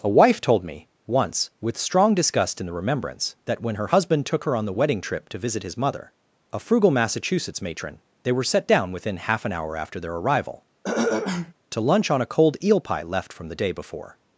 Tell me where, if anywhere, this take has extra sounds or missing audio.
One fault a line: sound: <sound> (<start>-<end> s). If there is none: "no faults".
sound: throat clearing (10.8-11.5 s)